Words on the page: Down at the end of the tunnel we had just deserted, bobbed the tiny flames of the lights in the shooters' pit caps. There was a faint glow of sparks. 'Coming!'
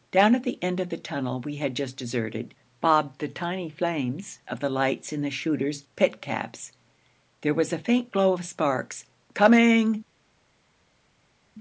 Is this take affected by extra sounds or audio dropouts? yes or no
no